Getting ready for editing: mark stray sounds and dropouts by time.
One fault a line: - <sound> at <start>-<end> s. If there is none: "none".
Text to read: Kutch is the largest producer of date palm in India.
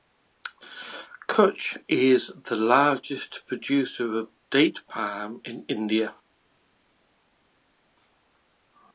none